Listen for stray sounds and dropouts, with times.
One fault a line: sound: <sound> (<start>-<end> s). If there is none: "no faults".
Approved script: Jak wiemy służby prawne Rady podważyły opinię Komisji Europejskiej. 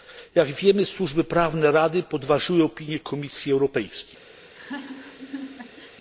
sound: laugh (4.4-6.0 s)